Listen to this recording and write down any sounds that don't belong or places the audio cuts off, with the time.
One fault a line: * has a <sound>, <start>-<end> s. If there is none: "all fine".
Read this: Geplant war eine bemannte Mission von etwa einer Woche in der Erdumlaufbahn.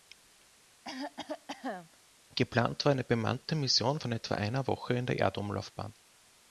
* has a cough, 0.8-2.0 s